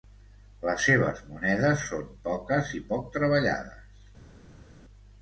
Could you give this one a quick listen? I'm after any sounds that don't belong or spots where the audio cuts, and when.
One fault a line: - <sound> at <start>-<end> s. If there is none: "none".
none